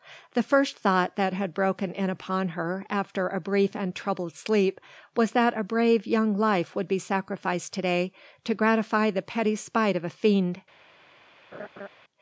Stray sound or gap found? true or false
true